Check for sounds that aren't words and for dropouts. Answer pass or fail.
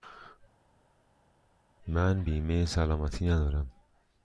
pass